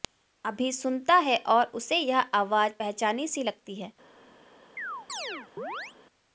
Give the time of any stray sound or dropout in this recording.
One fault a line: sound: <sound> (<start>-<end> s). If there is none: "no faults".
sound: chirp (4.8-5.9 s)